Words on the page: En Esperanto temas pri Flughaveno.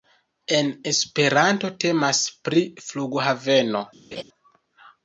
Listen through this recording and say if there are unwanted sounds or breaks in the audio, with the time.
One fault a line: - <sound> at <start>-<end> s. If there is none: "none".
- laugh at 4.1-4.2 s